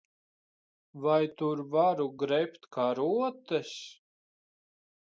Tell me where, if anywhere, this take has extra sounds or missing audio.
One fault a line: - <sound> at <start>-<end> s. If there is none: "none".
none